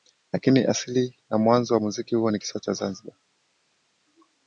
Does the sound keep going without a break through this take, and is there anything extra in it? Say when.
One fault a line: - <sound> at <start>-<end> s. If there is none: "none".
none